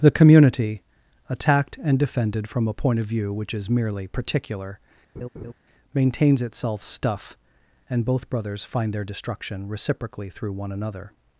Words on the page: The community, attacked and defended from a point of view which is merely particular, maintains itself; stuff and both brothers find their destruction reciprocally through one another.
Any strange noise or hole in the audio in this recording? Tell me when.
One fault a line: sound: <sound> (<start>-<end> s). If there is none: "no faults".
sound: laugh (5.2-5.5 s)